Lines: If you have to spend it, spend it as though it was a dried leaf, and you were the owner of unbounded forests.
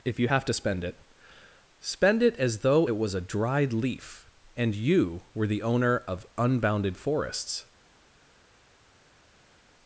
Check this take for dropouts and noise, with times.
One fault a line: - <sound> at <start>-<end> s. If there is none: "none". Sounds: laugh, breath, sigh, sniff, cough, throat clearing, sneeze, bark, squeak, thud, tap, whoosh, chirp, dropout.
none